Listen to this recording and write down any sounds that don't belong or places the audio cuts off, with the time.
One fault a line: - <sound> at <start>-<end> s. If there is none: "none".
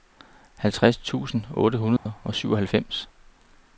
- dropout at 2.0-2.1 s